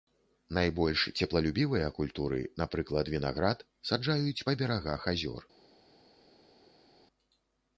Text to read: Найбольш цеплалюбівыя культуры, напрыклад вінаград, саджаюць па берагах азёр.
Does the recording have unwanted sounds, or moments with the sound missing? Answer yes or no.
no